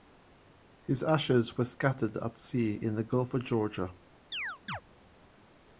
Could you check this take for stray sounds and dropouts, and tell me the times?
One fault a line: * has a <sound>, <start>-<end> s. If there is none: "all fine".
* has a chirp, 4.3-4.8 s